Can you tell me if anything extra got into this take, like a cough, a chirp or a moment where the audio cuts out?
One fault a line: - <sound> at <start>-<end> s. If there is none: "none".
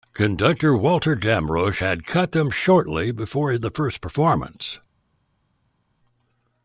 none